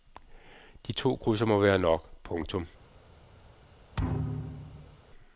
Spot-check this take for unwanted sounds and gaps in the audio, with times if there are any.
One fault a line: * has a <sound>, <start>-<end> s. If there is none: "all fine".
* has a thud, 3.9-5.0 s